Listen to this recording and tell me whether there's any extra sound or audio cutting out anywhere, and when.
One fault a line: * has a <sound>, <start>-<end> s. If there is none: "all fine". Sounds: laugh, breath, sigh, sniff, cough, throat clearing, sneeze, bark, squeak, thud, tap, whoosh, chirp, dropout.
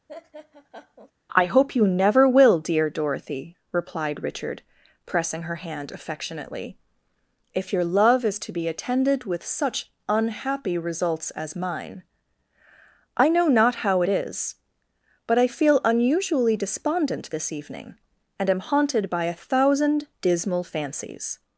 * has a laugh, 0.1-1.1 s